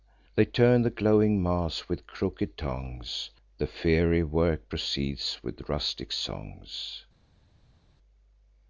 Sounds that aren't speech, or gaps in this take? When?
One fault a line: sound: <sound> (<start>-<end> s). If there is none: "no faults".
no faults